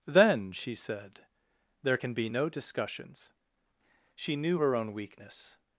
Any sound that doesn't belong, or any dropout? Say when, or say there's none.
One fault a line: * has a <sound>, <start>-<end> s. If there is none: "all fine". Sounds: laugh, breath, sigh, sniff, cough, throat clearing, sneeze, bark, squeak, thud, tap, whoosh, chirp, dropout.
all fine